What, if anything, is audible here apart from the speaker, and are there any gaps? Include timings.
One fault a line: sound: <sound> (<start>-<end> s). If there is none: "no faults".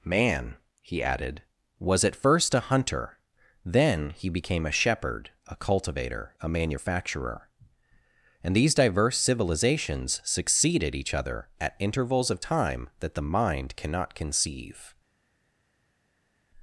no faults